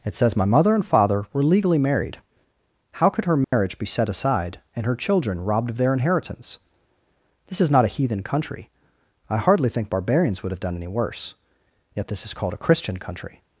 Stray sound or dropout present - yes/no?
yes